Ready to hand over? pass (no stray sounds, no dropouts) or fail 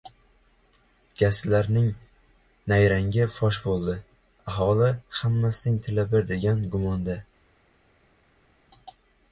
pass